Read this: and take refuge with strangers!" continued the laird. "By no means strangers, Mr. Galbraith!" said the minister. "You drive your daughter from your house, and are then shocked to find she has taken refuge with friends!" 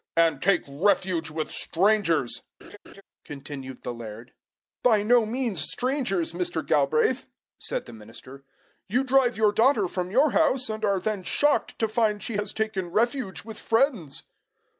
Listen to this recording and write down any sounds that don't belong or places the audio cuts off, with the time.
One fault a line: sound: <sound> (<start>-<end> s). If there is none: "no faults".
sound: laugh (2.6-3.0 s)